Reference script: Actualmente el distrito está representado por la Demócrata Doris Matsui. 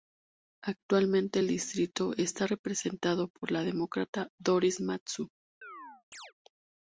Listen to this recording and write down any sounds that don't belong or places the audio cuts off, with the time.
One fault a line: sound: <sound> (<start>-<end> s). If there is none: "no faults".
sound: chirp (5.6-6.3 s)